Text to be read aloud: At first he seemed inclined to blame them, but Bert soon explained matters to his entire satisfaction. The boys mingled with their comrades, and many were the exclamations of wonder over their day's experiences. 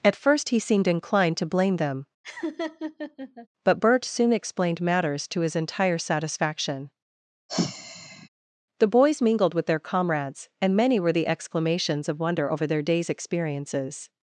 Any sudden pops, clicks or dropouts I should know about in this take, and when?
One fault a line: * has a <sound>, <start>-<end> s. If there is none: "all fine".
* has a laugh, 2.2-3.5 s
* has a sigh, 7.5-8.3 s